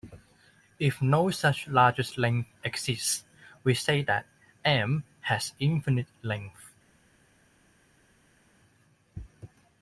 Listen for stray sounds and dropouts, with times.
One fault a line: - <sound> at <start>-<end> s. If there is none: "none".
none